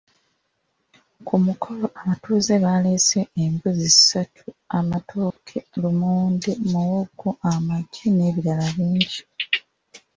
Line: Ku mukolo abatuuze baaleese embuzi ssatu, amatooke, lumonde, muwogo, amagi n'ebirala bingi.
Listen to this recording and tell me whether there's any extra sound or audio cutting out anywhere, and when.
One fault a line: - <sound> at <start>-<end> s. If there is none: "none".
- dropout at 5.3-5.4 s